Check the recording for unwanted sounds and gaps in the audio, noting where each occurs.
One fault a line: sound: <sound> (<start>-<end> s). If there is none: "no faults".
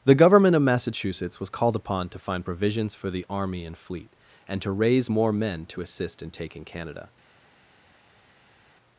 no faults